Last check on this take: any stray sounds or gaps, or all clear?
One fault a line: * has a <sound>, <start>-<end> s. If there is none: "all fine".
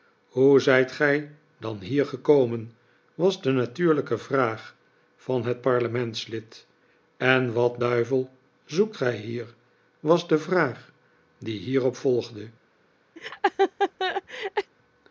* has a laugh, 13.2-14.7 s